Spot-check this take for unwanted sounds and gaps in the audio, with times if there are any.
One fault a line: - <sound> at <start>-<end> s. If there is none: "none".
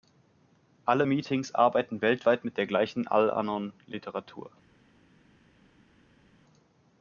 none